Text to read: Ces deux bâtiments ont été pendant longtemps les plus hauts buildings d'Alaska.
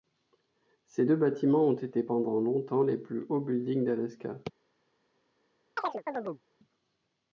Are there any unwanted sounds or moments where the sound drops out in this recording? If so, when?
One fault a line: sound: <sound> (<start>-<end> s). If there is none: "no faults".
sound: chirp (5.8-6.4 s)